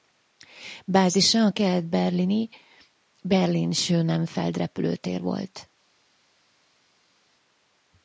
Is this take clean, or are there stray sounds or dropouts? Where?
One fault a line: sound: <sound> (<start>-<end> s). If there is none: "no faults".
no faults